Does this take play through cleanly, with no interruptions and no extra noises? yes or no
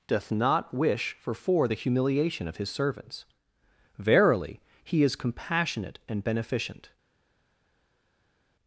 yes